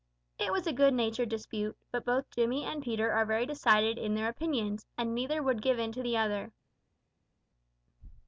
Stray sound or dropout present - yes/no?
no